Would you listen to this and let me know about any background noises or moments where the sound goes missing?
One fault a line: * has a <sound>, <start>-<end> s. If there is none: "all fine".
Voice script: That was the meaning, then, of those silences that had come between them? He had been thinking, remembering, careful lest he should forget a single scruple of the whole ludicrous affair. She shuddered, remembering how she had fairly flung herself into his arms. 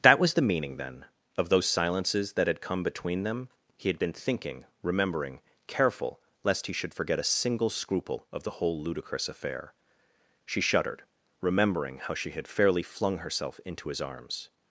all fine